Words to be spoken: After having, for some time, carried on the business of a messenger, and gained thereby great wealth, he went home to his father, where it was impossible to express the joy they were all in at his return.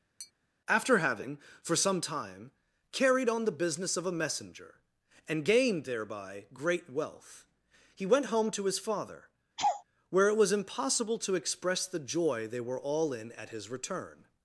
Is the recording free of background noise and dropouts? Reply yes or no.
no